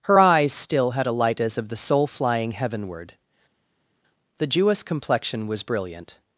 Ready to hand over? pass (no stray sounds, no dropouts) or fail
pass